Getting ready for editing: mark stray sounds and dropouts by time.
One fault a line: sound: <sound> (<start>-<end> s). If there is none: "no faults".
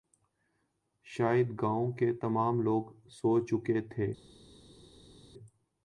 no faults